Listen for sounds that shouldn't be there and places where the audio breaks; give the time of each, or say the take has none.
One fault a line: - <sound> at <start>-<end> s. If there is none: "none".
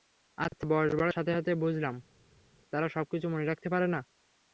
none